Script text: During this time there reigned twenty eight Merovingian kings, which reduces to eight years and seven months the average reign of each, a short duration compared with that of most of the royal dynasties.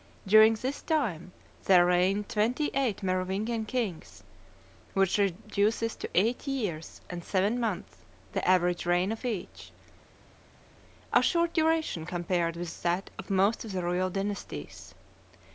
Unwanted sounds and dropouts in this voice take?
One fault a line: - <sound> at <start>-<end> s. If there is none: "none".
none